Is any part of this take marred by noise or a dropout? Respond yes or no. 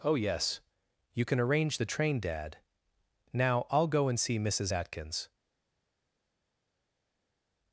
no